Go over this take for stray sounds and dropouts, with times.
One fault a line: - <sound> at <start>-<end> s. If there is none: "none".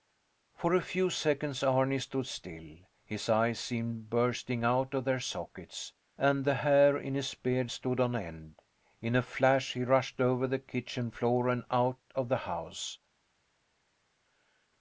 none